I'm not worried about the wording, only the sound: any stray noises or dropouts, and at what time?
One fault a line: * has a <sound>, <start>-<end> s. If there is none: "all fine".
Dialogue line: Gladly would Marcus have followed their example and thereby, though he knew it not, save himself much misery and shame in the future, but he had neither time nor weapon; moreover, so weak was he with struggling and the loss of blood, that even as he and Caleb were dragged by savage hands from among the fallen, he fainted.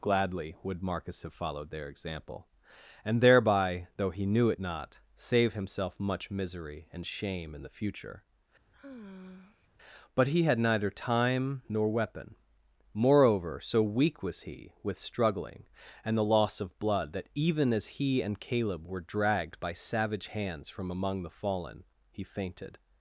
* has a sigh, 8.7-9.7 s